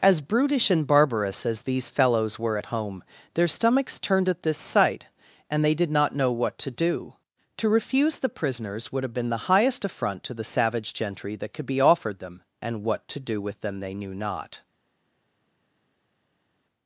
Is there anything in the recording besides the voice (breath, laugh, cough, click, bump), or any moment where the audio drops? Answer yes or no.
no